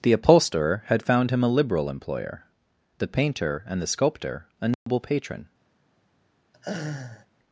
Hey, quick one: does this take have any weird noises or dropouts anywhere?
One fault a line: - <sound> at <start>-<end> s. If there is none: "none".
- dropout at 4.7-4.9 s
- laugh at 6.5-7.3 s